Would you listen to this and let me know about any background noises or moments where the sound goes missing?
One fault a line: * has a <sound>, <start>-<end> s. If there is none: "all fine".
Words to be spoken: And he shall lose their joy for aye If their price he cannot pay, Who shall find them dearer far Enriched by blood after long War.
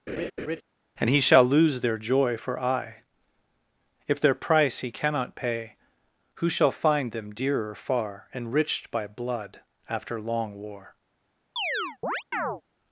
* has a laugh, 0.1-0.6 s
* has a chirp, 11.6-12.6 s